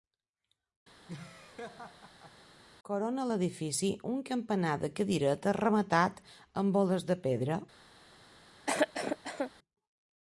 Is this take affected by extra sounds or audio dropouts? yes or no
yes